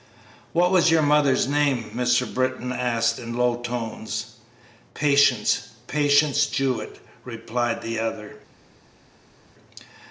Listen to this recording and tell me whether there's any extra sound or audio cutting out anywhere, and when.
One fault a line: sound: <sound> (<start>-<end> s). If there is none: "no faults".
no faults